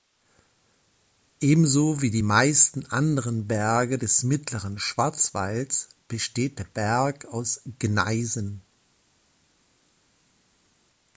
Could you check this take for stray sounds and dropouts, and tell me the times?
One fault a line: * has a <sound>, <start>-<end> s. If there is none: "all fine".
all fine